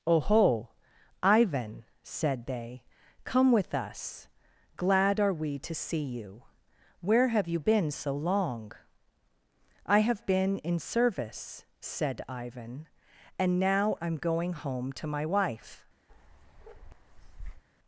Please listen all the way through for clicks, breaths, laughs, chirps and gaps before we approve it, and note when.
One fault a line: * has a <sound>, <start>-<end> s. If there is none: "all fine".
* has a bark, 16.1-17.6 s